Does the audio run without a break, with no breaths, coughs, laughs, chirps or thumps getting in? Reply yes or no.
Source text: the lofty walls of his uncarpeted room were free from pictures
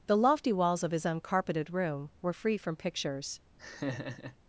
no